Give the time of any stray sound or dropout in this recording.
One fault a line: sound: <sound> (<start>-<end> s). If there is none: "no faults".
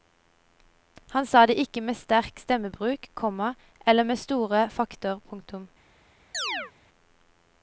sound: chirp (6.3-6.7 s)